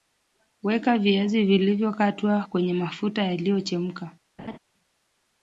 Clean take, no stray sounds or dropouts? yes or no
no